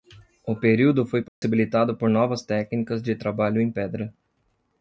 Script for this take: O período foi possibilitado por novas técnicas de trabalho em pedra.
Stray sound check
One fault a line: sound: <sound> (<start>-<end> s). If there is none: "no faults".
sound: dropout (1.3-1.4 s)